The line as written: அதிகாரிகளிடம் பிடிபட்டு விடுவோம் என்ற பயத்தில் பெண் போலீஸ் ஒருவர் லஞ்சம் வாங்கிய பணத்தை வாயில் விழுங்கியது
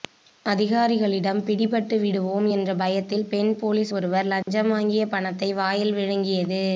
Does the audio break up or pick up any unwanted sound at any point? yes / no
yes